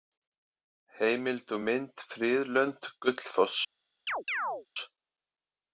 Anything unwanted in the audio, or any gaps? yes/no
yes